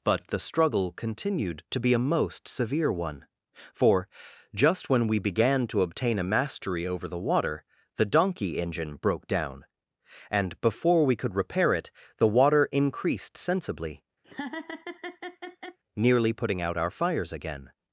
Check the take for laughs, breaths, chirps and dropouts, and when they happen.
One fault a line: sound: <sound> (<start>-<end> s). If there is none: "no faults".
sound: laugh (14.2-15.8 s)